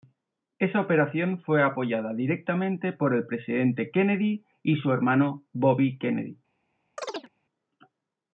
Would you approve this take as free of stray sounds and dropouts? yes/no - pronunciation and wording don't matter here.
no